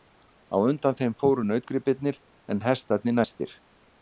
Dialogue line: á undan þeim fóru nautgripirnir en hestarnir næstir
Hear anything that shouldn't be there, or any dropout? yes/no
no